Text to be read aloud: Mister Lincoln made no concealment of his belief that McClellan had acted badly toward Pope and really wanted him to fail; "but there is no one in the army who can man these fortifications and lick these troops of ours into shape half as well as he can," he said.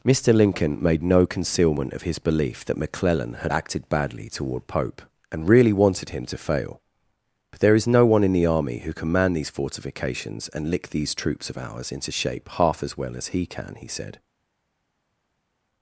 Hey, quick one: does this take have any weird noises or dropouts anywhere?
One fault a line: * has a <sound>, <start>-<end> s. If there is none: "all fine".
all fine